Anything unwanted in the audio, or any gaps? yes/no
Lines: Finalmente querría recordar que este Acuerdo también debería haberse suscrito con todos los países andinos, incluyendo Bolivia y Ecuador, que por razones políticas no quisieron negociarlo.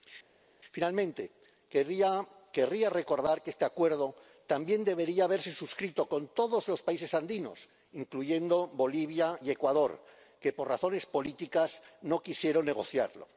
no